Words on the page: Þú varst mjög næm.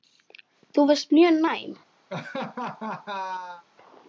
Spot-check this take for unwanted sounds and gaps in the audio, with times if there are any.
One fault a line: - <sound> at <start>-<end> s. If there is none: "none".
- laugh at 2.1-3.6 s